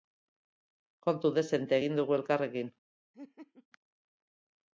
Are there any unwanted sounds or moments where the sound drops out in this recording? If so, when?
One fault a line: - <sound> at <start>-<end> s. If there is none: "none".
- laugh at 3.1-3.7 s